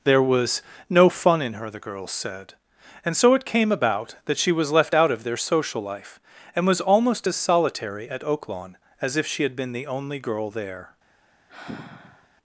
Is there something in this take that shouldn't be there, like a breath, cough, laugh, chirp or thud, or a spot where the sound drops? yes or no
yes